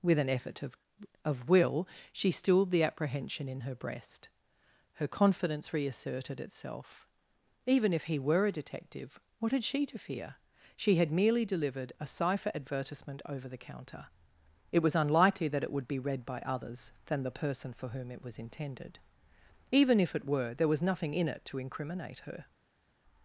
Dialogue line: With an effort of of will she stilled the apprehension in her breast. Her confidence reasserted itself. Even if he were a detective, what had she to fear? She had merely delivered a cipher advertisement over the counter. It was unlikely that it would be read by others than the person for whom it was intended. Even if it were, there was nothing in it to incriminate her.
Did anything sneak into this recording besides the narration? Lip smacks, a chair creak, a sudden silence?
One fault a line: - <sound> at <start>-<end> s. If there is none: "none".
none